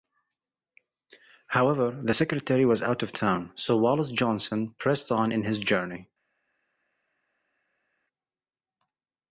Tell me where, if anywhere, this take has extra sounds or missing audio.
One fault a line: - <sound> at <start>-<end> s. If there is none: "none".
none